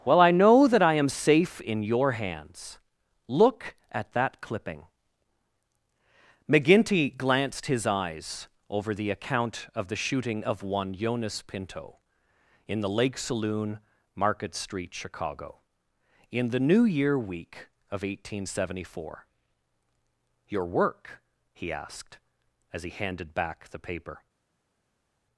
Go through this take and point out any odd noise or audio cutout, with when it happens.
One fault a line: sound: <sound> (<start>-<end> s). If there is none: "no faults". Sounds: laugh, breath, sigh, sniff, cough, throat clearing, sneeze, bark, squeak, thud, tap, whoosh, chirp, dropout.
no faults